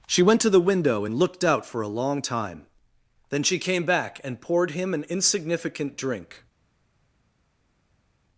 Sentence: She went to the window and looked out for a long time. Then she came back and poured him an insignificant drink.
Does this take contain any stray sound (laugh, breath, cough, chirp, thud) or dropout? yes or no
no